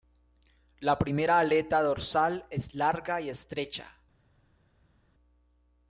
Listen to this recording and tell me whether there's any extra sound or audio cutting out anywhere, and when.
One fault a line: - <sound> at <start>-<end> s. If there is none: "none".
none